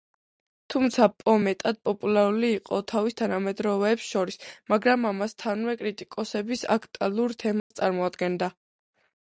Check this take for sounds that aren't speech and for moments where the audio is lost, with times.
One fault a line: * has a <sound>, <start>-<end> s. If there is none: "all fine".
* has a dropout, 7.6-7.7 s